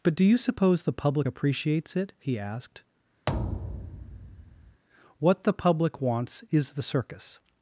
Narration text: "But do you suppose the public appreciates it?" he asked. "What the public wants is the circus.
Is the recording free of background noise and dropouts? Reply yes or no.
no